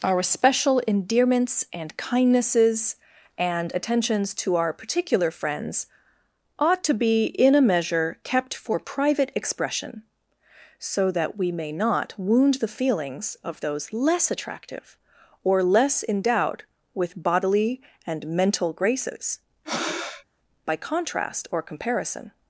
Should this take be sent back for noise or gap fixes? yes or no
yes